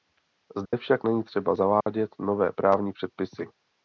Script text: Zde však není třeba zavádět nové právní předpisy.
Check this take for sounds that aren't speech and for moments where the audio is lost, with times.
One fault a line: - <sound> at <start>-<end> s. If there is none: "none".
- dropout at 0.7-0.7 s
- dropout at 1.8-1.9 s